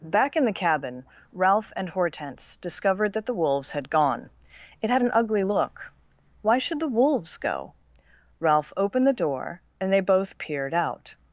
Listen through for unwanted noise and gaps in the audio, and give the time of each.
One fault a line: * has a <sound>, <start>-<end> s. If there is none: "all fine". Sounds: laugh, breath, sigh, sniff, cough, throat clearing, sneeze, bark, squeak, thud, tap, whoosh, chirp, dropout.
all fine